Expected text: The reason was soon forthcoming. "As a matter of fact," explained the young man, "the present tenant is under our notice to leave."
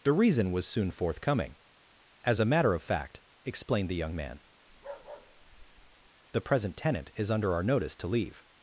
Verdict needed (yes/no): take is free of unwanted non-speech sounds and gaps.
no